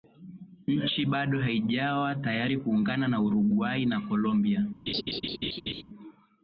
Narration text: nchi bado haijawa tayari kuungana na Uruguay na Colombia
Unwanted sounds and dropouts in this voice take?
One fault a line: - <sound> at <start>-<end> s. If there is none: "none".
- laugh at 4.9-5.8 s